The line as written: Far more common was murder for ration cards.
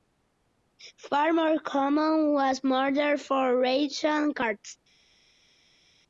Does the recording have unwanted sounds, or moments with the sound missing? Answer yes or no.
no